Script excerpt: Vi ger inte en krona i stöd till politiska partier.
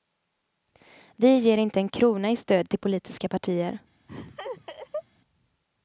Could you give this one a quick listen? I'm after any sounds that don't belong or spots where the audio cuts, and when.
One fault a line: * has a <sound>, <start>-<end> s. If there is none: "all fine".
* has a laugh, 4.1-5.0 s